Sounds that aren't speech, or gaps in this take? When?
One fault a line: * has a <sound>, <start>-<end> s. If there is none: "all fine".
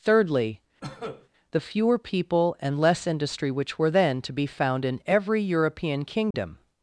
* has a cough, 0.8-1.3 s
* has a dropout, 6.3-6.3 s